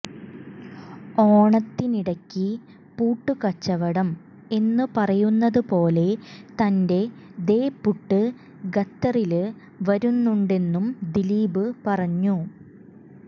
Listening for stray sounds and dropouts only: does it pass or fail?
pass